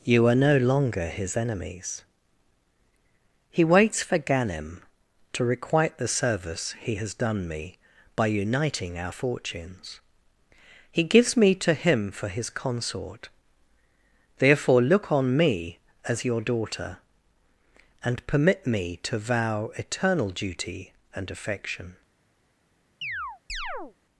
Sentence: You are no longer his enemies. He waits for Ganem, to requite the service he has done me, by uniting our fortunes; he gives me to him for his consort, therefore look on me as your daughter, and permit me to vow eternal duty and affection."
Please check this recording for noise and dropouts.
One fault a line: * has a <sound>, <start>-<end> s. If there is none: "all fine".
* has a chirp, 23.0-24.0 s